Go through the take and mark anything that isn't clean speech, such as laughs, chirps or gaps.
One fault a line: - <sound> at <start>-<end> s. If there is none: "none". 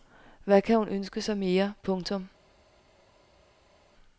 none